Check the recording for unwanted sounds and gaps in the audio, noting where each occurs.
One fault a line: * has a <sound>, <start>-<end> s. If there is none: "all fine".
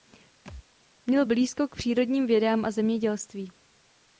* has a thud, 0.5-0.7 s